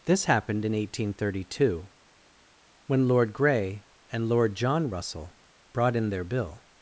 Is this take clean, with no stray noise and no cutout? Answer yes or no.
yes